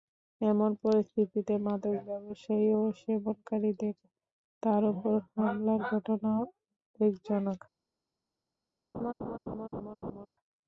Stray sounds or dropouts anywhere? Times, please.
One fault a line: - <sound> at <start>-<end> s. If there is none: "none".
- laugh at 8.9-10.3 s